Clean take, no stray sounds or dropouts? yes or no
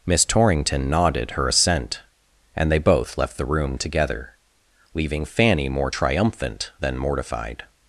yes